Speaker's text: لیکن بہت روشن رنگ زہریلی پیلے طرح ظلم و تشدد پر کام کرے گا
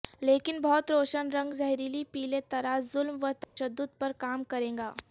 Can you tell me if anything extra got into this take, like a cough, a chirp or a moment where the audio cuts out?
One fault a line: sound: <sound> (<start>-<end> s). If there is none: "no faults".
sound: dropout (3.4-3.6 s)